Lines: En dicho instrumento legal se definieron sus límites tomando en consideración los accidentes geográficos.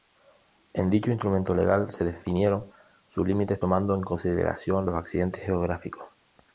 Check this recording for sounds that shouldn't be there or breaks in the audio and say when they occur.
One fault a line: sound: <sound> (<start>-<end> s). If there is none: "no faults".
no faults